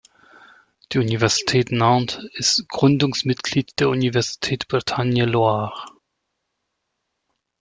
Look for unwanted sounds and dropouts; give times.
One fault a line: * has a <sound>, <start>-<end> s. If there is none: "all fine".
all fine